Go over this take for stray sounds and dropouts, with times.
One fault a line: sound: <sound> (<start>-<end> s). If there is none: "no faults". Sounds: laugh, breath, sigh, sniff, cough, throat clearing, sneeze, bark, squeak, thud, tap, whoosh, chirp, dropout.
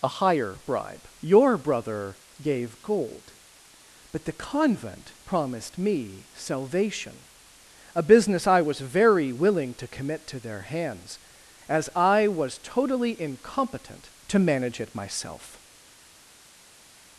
no faults